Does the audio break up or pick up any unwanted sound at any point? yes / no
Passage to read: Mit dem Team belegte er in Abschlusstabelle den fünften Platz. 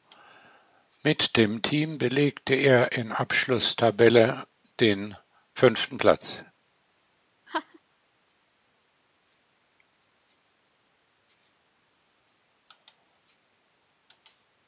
yes